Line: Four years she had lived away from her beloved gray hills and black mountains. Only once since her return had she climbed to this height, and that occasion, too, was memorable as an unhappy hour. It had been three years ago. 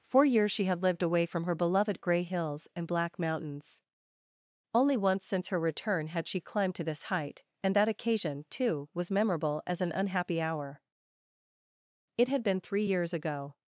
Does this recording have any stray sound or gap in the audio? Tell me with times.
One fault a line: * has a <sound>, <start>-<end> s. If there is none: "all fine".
all fine